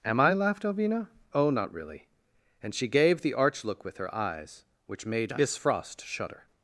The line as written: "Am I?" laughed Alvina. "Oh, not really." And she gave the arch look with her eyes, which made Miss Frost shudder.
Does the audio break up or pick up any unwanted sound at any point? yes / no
no